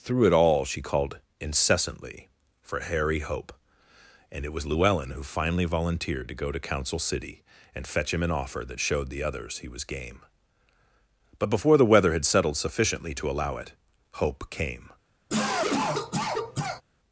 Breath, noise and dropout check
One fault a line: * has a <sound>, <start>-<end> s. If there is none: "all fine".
* has a cough, 15.3-16.8 s